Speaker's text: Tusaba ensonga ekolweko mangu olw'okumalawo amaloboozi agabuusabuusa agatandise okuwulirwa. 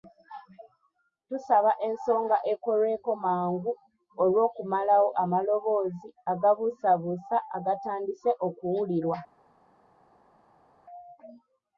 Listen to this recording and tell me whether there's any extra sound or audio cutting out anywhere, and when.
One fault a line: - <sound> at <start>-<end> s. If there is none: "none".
none